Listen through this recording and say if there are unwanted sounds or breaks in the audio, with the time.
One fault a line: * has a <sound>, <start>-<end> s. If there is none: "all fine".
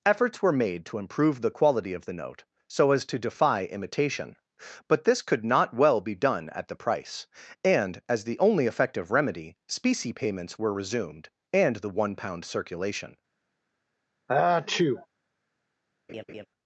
* has a sneeze, 14.3-15.1 s
* has a laugh, 16.1-16.5 s